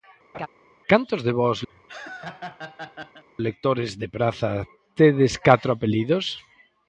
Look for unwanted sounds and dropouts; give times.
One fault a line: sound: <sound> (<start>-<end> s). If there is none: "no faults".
sound: laugh (0.3-0.5 s)
sound: laugh (1.7-3.2 s)